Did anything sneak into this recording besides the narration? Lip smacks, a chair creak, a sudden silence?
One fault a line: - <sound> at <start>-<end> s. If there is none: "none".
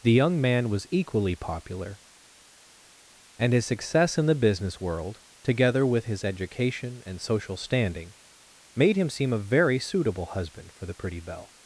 none